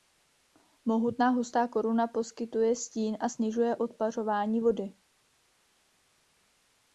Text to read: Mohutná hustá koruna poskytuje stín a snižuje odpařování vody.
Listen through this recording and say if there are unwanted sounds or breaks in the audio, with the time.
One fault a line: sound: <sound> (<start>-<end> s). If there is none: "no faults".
no faults